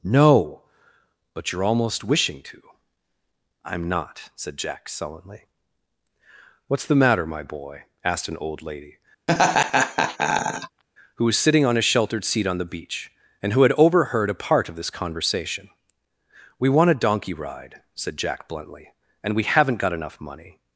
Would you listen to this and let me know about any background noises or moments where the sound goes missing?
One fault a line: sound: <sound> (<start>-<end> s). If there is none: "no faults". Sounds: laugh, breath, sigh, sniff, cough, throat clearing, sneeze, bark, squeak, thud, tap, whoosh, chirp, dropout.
sound: laugh (9.3-10.8 s)